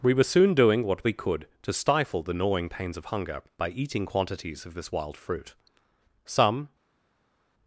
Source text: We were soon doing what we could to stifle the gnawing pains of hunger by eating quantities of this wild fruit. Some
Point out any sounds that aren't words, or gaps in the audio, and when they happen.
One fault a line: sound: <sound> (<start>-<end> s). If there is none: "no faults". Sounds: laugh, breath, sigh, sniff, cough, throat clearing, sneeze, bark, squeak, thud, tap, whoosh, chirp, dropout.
no faults